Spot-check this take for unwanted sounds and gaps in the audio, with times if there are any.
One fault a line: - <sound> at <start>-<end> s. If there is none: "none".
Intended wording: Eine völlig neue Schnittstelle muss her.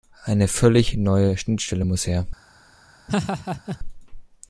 - laugh at 3.1-3.8 s